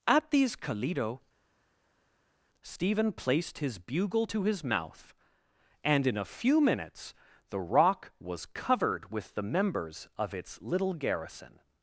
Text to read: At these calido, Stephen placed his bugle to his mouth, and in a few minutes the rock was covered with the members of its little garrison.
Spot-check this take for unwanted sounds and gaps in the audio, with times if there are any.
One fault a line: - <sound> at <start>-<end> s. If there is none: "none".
none